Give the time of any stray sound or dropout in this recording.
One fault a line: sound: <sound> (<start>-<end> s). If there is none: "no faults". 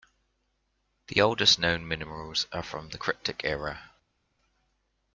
no faults